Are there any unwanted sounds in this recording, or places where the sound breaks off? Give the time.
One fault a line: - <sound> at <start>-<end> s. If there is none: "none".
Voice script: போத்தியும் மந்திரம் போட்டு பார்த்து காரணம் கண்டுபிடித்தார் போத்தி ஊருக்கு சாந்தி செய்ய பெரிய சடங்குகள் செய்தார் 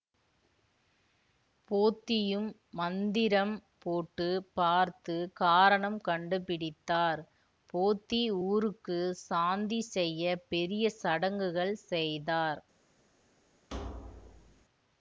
- thud at 13.7-14.6 s